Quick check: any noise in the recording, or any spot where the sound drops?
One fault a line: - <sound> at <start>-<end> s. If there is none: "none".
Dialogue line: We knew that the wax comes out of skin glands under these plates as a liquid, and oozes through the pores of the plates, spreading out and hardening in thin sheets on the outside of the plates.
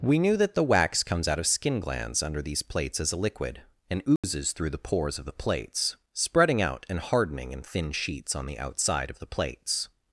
- dropout at 4.2-4.2 s